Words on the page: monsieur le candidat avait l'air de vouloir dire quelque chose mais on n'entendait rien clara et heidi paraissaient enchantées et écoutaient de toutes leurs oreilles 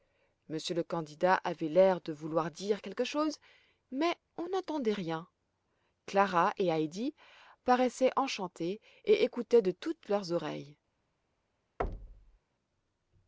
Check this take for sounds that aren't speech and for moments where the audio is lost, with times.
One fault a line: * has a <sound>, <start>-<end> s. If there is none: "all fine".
* has a thud, 11.8-12.4 s